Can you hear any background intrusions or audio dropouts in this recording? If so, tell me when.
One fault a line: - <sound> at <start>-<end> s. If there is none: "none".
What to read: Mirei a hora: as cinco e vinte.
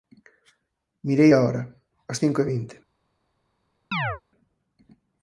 - chirp at 3.9-4.2 s